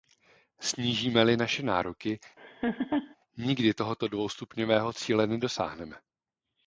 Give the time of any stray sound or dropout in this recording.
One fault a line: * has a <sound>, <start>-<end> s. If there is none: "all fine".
* has a laugh, 2.4-3.2 s